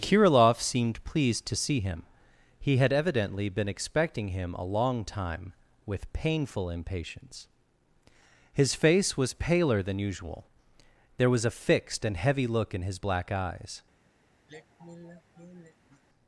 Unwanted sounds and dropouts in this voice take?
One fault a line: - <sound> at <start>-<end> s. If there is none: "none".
- sigh at 14.5-16.0 s